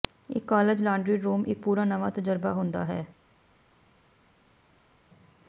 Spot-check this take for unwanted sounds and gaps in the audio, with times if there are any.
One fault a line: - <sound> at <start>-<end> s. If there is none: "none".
none